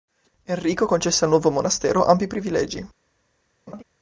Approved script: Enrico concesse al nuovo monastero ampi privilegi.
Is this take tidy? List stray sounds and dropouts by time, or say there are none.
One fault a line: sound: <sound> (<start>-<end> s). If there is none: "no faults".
sound: laugh (3.7-3.8 s)